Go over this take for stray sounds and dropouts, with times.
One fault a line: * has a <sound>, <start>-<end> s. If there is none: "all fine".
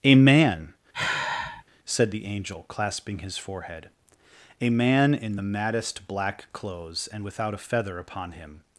* has a sigh, 0.9-1.6 s